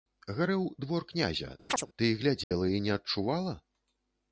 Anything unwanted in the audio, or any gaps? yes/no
yes